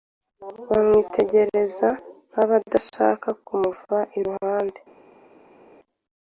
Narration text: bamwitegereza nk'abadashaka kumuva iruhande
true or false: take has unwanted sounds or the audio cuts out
false